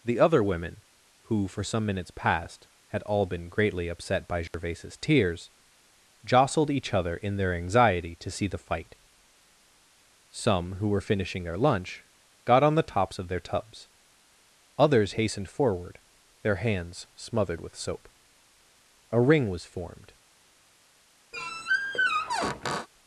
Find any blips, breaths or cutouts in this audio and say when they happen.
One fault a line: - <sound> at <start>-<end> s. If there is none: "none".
- dropout at 4.5-4.5 s
- squeak at 21.3-22.9 s